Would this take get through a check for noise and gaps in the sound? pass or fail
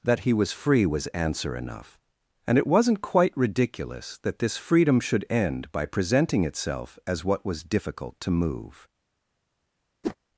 fail